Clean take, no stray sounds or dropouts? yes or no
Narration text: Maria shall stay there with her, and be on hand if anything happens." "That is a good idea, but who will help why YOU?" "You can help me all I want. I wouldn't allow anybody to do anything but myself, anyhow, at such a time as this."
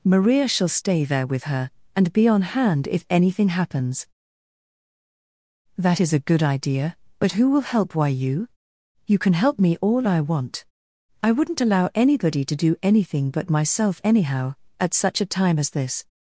yes